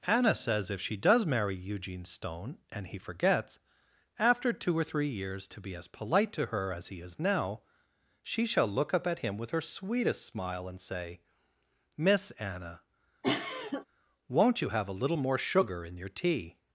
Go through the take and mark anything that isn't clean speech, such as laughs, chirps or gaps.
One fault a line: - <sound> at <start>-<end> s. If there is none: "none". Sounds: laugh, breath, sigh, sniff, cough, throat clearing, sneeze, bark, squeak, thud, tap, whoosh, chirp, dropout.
- cough at 13.2-13.9 s